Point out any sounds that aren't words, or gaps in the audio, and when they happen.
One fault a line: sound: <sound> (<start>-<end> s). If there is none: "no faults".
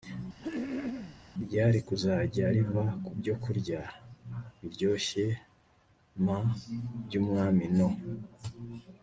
sound: throat clearing (0.4-1.2 s)